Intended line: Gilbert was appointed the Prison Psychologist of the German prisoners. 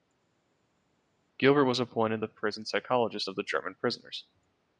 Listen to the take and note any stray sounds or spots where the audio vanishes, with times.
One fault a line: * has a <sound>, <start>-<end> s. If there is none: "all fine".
all fine